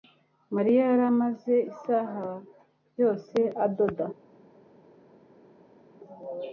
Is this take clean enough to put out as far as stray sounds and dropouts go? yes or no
yes